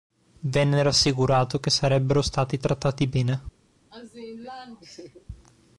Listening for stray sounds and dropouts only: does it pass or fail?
fail